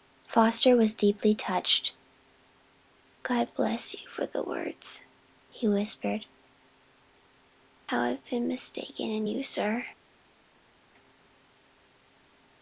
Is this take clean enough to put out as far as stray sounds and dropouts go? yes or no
yes